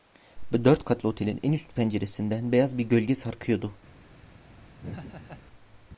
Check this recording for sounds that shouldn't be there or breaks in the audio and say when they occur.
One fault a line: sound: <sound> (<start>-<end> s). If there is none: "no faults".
sound: laugh (4.8-5.5 s)